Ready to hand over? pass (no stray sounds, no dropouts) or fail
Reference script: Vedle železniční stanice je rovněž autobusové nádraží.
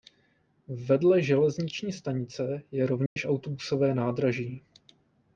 fail